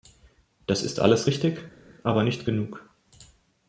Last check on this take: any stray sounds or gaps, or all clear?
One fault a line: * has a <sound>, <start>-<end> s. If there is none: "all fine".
all fine